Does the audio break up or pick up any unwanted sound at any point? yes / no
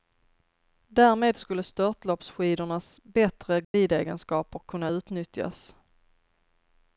yes